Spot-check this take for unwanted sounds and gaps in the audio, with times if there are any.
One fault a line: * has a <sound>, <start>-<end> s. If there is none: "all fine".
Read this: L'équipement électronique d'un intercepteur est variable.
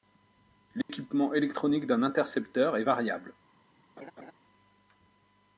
* has a dropout, 0.8-0.9 s
* has a laugh, 4.0-4.3 s